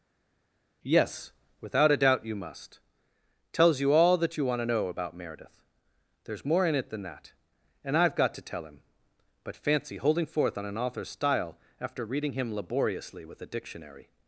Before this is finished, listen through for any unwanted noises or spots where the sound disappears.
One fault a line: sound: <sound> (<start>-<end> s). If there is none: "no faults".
no faults